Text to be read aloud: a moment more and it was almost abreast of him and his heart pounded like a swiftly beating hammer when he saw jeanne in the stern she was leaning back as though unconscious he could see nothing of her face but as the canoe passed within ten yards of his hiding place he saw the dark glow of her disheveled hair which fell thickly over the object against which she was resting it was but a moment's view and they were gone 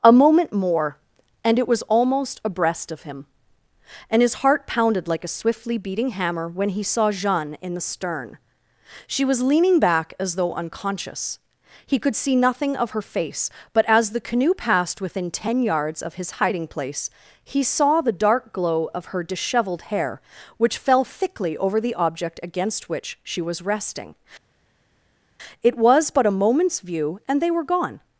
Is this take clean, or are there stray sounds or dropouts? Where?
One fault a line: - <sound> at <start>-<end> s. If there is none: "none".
none